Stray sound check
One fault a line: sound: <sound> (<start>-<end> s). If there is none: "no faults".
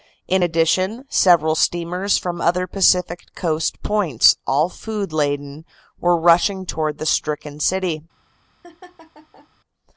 sound: laugh (8.6-9.5 s)